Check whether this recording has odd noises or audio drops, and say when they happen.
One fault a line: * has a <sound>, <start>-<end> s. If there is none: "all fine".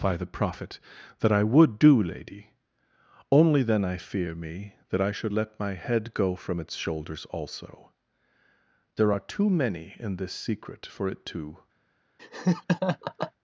* has a laugh, 12.2-13.3 s